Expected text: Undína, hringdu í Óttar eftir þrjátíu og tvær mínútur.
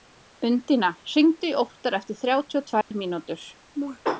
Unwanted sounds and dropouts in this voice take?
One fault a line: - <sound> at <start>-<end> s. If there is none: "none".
- dropout at 2.8-2.9 s